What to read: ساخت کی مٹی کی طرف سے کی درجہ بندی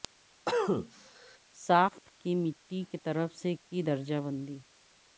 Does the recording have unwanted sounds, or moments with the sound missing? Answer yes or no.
yes